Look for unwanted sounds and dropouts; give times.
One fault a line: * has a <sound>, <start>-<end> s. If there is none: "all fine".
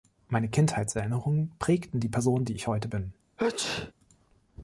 * has a sneeze, 3.4-3.9 s